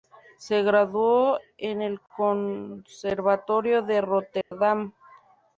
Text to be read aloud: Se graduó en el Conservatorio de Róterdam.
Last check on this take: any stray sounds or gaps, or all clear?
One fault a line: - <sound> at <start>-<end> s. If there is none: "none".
- dropout at 4.4-4.5 s